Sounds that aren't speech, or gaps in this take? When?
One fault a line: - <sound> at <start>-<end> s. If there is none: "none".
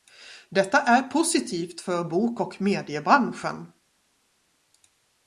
none